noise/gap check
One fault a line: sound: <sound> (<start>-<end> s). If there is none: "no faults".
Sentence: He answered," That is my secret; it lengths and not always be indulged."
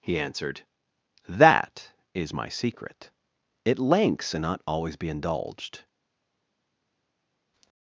no faults